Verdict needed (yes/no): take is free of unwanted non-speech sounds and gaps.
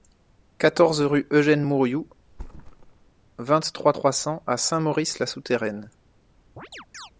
no